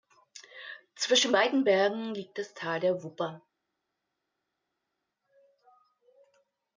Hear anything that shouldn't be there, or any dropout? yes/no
no